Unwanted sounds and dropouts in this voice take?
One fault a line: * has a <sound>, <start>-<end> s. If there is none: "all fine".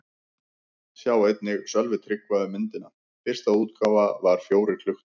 all fine